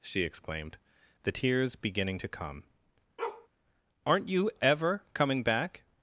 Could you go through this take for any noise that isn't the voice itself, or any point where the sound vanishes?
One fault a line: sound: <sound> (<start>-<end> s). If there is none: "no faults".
sound: bark (3.2-3.5 s)